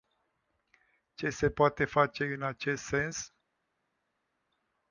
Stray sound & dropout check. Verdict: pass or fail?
pass